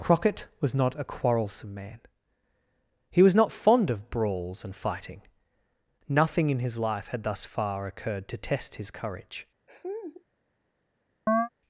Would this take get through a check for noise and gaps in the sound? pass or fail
fail